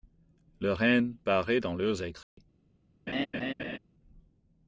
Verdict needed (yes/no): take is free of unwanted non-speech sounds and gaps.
no